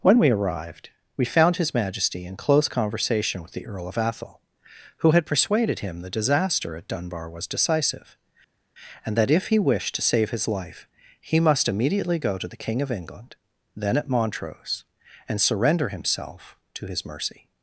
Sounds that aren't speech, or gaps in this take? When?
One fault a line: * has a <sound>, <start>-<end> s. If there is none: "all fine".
all fine